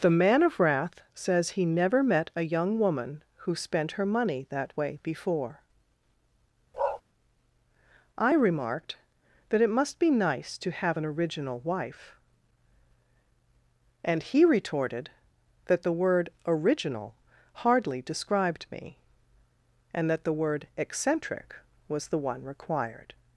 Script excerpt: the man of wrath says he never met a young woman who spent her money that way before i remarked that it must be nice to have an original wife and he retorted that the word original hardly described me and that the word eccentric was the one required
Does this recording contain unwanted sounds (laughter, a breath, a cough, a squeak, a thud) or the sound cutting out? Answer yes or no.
yes